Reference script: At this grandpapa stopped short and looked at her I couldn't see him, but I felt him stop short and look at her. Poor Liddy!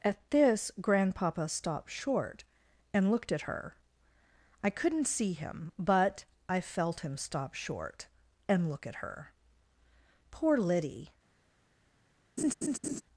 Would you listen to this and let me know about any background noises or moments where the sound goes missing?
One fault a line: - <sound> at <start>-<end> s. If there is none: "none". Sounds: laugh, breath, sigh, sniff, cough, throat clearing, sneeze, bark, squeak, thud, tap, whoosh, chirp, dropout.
- laugh at 12.4-13.0 s